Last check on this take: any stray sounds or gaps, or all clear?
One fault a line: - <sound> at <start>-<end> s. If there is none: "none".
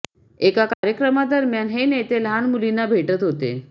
- dropout at 0.7-0.8 s